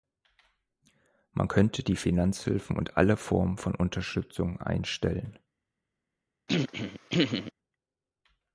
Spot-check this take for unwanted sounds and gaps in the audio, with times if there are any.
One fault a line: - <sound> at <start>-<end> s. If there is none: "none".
- throat clearing at 6.5-7.5 s